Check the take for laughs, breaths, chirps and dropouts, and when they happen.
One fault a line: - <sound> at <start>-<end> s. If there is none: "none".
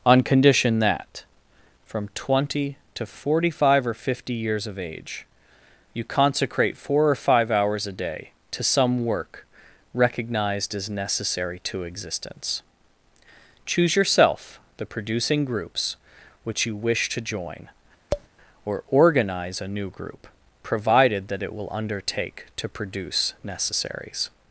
- tap at 18.1-18.3 s